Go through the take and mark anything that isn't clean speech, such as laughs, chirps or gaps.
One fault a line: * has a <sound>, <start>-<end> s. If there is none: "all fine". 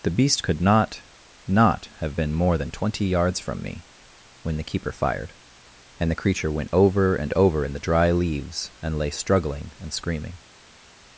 all fine